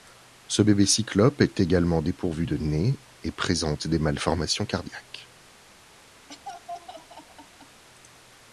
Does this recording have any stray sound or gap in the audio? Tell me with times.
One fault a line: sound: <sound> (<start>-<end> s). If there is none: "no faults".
sound: laugh (6.3-7.8 s)